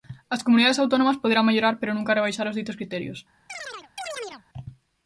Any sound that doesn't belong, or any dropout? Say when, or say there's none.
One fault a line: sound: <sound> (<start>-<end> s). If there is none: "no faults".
sound: chirp (3.5-4.4 s)